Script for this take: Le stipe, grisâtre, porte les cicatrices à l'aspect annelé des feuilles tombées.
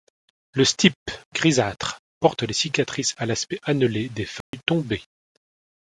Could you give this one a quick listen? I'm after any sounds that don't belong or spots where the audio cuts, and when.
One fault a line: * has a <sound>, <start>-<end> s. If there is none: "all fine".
* has a dropout, 4.4-4.5 s